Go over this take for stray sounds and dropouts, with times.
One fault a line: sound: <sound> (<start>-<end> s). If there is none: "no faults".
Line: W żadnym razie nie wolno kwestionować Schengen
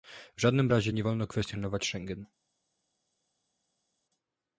no faults